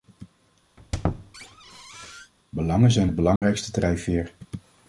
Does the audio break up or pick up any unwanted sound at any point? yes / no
yes